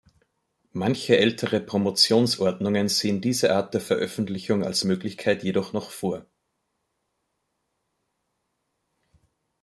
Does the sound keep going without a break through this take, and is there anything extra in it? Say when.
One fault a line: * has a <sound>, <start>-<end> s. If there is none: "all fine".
all fine